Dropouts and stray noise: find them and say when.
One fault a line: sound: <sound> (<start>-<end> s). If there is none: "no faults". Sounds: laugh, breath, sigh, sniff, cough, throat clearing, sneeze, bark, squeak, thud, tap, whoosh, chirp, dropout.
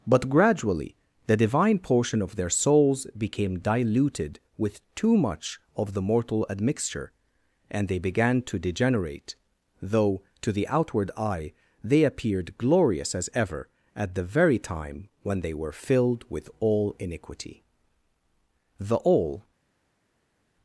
no faults